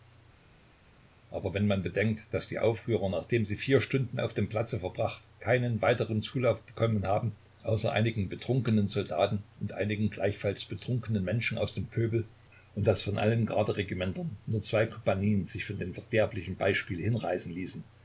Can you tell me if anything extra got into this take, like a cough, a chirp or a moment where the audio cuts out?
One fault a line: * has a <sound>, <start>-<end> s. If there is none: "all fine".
all fine